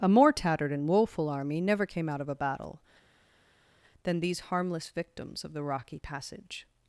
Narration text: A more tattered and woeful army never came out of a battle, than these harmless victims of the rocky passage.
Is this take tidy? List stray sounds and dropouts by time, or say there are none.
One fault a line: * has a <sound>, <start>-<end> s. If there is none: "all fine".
all fine